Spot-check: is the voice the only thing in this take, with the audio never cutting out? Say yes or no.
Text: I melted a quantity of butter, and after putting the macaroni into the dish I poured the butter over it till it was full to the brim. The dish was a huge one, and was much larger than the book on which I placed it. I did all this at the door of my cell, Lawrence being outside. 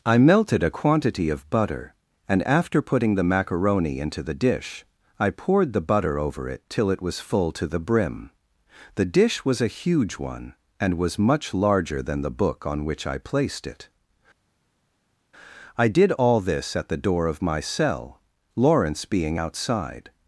yes